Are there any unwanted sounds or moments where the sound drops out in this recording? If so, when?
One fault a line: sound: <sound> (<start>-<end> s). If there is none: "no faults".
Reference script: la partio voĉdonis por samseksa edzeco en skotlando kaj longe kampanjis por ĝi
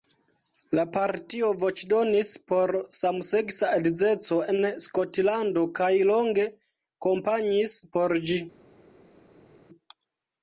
no faults